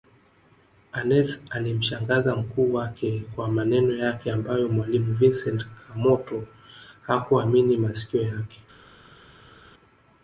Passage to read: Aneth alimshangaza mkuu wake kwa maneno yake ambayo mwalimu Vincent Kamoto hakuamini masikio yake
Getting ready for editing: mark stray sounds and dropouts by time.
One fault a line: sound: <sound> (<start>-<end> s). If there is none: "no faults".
no faults